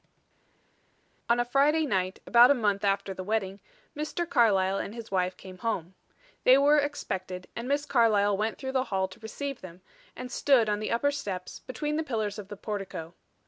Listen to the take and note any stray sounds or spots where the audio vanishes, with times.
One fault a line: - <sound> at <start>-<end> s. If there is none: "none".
none